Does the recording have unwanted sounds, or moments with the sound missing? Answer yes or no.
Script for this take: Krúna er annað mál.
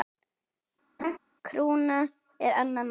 yes